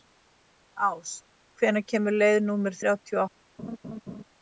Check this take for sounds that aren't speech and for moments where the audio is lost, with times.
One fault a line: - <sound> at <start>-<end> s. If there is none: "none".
- laugh at 3.6-4.2 s